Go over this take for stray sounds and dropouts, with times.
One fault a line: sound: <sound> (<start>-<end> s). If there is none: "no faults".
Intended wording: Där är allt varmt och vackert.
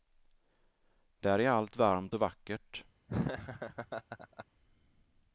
sound: laugh (3.1-4.5 s)